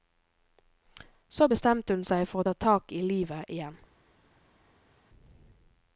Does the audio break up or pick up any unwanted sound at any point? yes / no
no